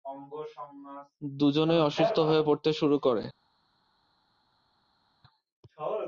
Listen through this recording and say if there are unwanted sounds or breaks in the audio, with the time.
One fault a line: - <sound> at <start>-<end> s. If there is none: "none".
none